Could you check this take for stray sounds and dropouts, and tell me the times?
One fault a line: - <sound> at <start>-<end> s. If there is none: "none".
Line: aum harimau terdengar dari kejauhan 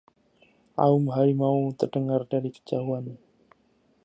none